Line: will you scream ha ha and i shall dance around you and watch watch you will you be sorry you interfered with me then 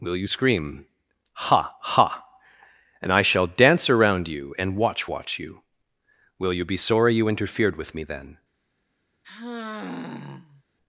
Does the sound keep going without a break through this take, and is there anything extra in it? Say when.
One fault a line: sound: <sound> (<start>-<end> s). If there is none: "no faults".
sound: sigh (9.2-10.6 s)